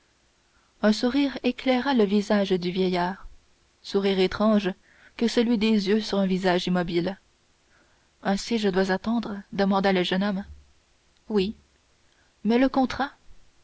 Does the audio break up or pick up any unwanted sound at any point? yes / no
no